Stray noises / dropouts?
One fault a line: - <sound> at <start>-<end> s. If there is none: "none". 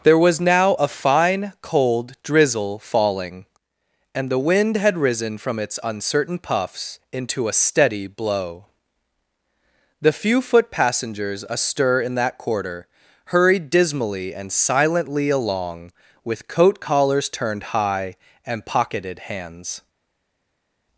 none